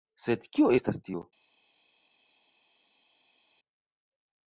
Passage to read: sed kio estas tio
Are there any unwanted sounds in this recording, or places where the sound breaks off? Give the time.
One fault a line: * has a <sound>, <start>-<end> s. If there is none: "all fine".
all fine